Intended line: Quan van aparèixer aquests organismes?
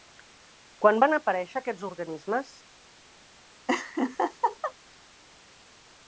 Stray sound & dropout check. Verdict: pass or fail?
fail